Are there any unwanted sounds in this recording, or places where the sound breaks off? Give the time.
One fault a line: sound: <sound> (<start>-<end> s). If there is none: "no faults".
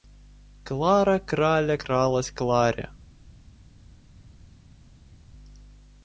no faults